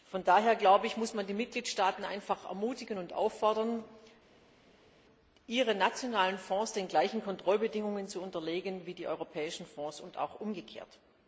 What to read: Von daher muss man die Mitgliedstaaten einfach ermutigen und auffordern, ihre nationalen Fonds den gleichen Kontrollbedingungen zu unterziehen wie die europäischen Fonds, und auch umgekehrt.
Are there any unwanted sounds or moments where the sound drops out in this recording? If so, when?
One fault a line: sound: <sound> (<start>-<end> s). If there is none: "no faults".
no faults